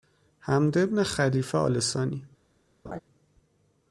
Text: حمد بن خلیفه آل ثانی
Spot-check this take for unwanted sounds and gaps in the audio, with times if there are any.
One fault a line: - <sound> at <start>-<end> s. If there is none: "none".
- laugh at 2.8-3.0 s